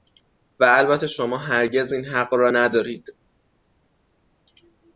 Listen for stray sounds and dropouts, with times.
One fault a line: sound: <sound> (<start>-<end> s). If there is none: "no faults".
no faults